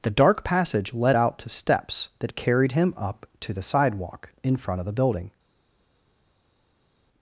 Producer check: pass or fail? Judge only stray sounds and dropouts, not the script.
pass